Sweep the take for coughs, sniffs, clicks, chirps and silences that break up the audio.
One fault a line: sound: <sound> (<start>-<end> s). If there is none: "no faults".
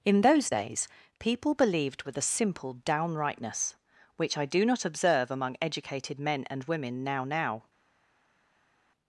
no faults